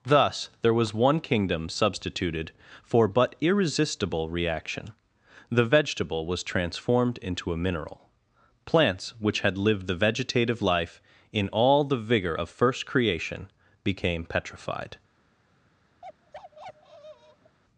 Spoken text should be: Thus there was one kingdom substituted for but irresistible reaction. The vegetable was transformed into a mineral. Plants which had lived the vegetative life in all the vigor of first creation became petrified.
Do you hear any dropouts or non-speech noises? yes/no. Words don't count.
yes